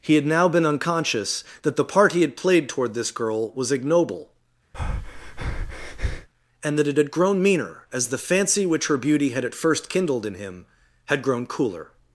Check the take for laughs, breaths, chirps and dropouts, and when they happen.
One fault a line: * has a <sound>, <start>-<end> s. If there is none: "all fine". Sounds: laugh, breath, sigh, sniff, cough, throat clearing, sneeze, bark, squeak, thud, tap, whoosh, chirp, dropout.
* has a breath, 4.7-6.3 s